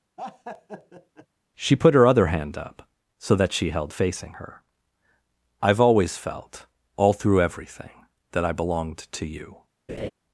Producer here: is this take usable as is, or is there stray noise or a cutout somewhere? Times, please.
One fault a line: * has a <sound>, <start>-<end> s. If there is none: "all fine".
* has a laugh, 0.2-1.3 s
* has a laugh, 9.9-10.1 s